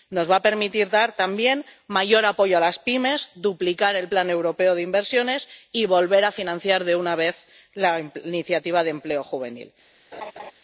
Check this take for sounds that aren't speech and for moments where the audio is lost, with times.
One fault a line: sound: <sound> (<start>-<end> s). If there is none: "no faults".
sound: laugh (10.1-10.5 s)